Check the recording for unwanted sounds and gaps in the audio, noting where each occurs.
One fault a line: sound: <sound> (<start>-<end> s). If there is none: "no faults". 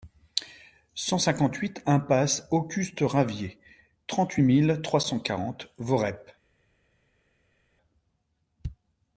no faults